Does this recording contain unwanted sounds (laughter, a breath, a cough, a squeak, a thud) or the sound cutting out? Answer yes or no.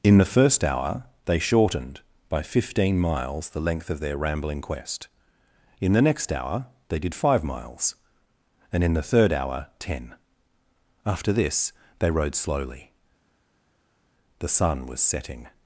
no